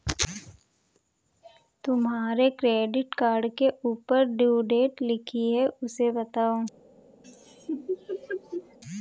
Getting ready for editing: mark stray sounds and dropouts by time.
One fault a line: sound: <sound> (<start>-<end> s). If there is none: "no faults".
sound: laugh (7.2-8.8 s)